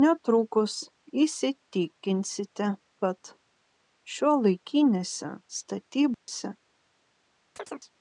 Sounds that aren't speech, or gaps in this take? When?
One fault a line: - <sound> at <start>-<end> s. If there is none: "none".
- dropout at 6.1-6.3 s
- chirp at 7.6-7.9 s